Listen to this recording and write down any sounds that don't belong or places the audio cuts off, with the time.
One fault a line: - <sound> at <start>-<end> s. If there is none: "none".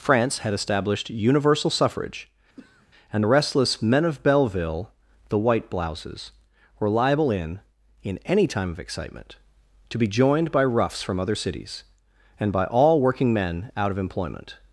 - throat clearing at 2.6-2.9 s